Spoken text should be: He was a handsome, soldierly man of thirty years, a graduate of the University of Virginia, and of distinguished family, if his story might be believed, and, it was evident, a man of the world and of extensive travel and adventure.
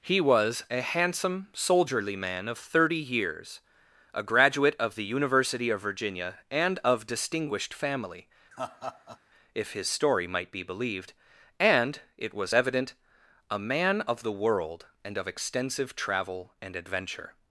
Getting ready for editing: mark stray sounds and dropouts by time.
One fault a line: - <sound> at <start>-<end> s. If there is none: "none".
- laugh at 8.5-9.2 s